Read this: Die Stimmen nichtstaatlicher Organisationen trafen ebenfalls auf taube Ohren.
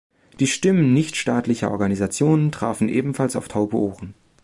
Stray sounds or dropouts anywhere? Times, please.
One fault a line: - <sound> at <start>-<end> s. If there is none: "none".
none